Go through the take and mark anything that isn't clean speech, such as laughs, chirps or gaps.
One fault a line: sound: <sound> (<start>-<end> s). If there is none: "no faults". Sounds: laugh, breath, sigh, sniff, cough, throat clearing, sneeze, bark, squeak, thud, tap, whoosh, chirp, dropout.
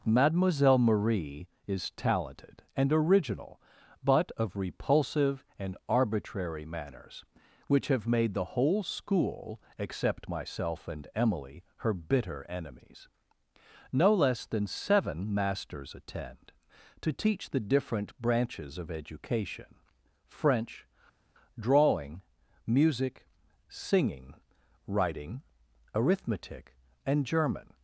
no faults